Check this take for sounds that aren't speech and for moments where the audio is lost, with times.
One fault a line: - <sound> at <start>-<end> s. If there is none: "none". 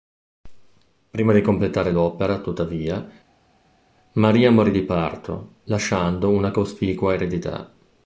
none